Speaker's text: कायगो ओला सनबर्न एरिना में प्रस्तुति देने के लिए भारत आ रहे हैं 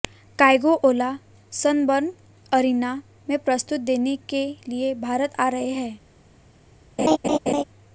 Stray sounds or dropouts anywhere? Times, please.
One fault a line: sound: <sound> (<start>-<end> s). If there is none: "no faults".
sound: laugh (7.0-7.6 s)